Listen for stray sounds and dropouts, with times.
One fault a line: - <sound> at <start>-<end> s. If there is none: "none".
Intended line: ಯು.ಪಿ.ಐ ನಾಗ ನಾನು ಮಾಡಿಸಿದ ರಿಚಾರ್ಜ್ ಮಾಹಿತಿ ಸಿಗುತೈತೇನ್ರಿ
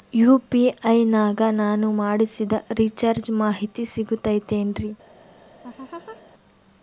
- laugh at 5.6-6.2 s